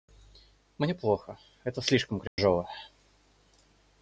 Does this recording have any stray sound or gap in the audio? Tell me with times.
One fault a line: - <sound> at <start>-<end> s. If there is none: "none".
- dropout at 2.3-2.4 s